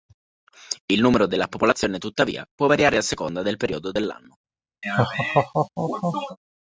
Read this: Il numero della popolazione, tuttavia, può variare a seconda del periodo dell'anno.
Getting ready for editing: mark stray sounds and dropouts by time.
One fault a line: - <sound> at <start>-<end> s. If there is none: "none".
- laugh at 4.8-6.4 s